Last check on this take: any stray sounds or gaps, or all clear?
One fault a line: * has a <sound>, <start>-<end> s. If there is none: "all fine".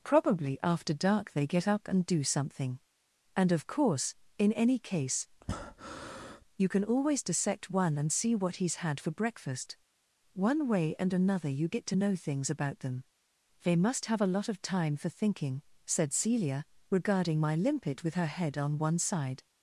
* has a breath, 5.4-6.4 s